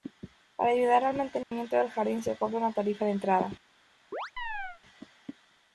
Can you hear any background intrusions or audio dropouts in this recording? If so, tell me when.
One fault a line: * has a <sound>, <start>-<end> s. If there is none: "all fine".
* has a dropout, 1.4-1.5 s
* has a chirp, 4.1-4.8 s